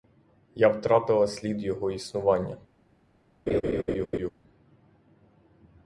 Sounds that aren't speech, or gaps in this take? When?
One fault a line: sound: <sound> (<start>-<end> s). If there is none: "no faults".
sound: laugh (3.5-4.3 s)